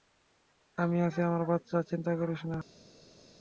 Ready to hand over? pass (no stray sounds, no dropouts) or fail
pass